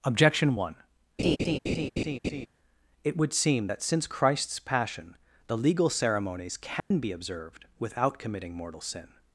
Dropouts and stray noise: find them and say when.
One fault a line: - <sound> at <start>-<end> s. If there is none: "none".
- laugh at 1.2-2.5 s
- dropout at 6.8-6.9 s